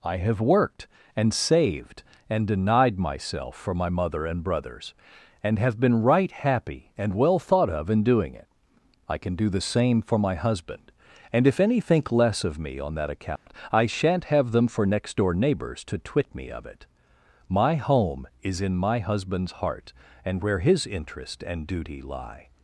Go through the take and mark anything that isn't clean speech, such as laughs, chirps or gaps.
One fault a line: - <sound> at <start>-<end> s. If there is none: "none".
- dropout at 13.4-13.5 s